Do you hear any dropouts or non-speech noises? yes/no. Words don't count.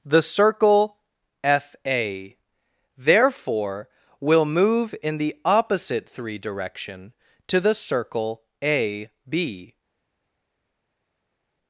no